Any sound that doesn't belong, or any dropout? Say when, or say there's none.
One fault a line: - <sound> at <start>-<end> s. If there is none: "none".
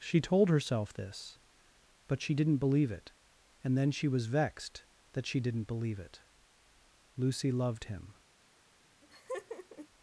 - laugh at 9.0-9.9 s